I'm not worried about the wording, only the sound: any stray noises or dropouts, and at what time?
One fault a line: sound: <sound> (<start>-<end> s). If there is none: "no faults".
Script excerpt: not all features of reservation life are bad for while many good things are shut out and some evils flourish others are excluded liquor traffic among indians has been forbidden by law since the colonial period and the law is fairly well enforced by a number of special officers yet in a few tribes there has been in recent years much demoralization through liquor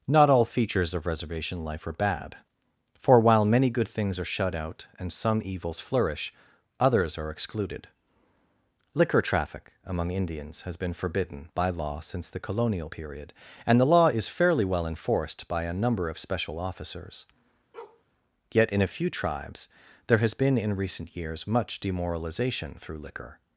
sound: bark (17.7-18.0 s)